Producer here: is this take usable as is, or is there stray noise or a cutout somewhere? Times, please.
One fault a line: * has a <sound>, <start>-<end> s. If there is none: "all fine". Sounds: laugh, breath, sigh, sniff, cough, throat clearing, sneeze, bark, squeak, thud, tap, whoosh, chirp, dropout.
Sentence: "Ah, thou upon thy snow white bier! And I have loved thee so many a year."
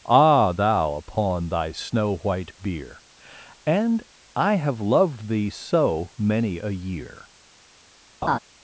* has a laugh, 8.2-8.4 s